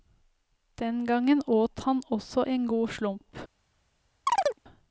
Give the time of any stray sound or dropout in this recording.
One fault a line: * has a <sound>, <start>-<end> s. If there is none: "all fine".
* has a chirp, 4.3-4.6 s